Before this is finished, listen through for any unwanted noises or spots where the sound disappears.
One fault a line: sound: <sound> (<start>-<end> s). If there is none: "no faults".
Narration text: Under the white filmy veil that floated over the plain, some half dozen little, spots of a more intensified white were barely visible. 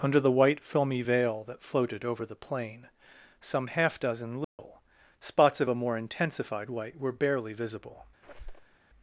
sound: dropout (4.4-4.6 s)
sound: squeak (8.2-8.8 s)